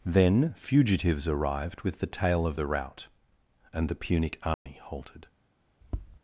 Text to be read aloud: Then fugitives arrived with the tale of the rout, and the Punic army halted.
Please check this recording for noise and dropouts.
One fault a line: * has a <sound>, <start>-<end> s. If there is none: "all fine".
* has a dropout, 4.5-4.7 s
* has a tap, 5.8-6.2 s